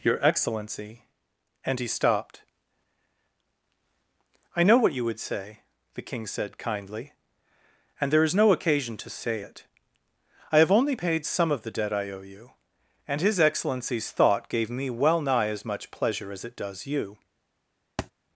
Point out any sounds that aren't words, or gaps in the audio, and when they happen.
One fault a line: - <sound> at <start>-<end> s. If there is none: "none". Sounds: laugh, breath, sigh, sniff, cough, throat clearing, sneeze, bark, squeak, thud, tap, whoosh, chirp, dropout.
- thud at 18.0-18.1 s